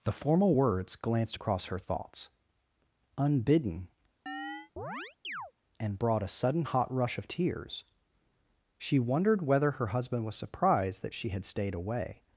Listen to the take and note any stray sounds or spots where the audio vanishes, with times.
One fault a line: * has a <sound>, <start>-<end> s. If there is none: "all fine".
* has a chirp, 4.3-5.5 s